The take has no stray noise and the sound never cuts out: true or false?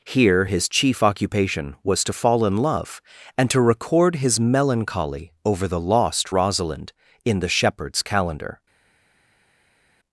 true